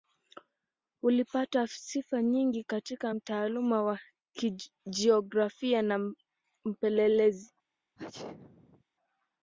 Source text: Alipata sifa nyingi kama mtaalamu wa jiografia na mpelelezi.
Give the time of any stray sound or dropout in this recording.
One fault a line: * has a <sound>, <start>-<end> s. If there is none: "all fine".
* has a sneeze, 8.0-8.8 s